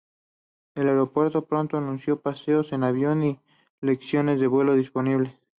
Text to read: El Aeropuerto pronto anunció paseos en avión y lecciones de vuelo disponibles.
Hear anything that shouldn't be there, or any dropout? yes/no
no